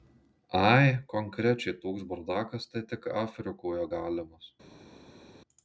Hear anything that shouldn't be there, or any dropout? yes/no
no